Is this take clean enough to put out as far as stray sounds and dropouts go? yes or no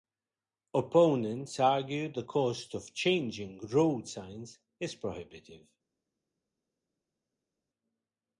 yes